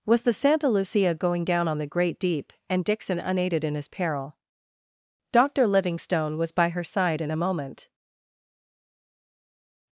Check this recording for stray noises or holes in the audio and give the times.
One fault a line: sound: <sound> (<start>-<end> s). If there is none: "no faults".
no faults